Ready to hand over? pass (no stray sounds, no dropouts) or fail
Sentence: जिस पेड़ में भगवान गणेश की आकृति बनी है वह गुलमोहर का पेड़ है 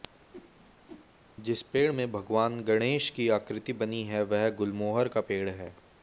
fail